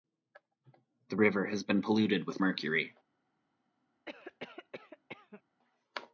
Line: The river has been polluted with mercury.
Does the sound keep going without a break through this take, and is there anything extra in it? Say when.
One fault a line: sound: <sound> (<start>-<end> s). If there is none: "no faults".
sound: cough (4.0-5.4 s)